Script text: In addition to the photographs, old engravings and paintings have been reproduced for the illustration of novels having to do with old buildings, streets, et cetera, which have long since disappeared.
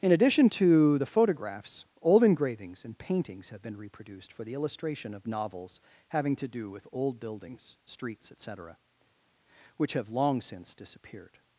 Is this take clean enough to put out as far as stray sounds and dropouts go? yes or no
yes